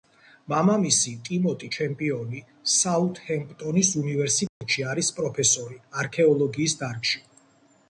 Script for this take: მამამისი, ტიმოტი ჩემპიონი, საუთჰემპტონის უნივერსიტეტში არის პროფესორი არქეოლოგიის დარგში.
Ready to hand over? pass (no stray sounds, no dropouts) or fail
fail